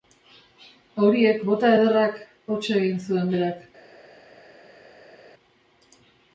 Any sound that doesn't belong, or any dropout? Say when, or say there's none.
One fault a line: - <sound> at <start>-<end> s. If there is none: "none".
none